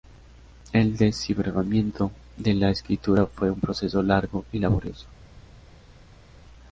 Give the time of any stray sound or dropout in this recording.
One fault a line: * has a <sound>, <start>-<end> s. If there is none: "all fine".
all fine